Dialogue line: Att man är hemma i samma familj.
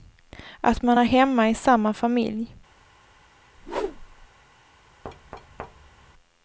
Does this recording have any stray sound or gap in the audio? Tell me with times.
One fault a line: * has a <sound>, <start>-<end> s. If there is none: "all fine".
* has a whoosh, 3.6-4.3 s
* has a thud, 5.0-6.1 s